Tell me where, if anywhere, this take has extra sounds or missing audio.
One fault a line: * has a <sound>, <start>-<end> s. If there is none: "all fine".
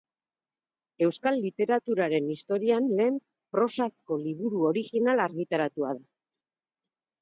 all fine